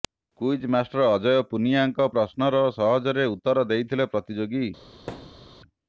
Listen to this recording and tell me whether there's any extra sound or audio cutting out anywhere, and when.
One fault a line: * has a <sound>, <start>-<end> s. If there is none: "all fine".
* has a thud, 5.1-5.6 s